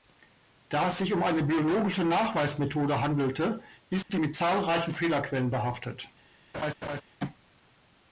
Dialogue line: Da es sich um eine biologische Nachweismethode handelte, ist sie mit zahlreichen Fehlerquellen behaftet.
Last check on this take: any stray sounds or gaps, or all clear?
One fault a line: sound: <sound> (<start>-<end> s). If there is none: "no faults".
sound: dropout (4.0-4.1 s)
sound: laugh (6.5-7.0 s)